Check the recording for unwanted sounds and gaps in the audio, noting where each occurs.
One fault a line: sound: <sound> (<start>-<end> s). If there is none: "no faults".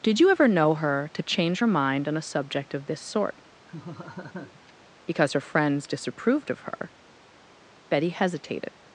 sound: laugh (3.7-4.7 s)